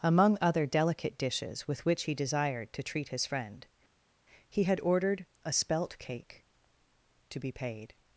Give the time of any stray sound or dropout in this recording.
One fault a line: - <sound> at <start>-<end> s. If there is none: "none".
none